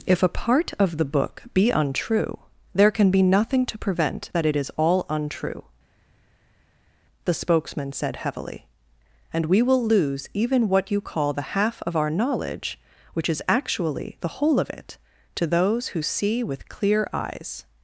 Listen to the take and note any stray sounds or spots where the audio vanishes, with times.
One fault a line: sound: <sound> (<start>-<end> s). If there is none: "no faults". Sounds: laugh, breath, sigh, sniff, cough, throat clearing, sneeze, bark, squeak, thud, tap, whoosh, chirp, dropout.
no faults